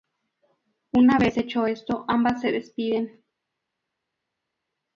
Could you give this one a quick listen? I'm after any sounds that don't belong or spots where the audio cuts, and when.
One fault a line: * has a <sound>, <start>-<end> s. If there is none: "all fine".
all fine